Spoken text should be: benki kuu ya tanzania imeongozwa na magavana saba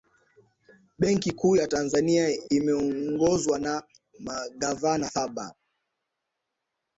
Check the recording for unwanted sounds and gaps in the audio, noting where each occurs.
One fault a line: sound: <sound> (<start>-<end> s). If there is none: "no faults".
no faults